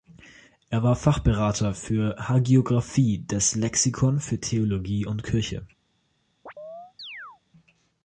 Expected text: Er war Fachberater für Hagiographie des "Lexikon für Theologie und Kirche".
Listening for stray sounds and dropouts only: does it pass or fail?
fail